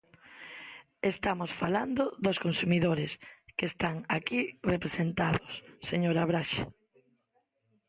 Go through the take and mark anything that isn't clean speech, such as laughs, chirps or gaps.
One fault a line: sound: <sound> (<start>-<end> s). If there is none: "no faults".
no faults